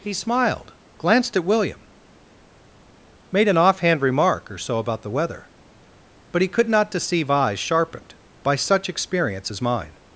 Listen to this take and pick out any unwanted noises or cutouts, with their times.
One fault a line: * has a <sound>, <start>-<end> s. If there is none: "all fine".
all fine